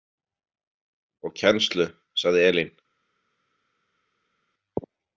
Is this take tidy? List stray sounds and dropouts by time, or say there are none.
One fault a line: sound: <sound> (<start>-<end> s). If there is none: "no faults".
no faults